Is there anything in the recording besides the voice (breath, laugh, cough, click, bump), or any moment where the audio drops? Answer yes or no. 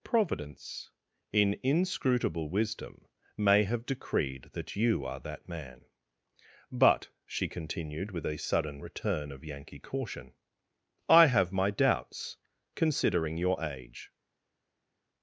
no